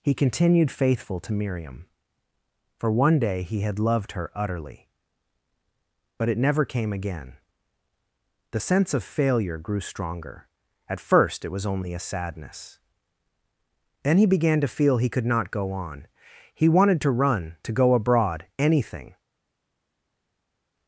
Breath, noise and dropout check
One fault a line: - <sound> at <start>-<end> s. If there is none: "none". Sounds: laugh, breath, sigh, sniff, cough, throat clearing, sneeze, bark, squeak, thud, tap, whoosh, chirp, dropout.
none